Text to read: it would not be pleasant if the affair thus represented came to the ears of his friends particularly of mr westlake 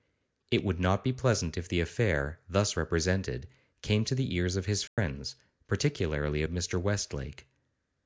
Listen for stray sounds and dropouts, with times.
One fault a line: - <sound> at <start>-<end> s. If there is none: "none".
- dropout at 4.9-5.0 s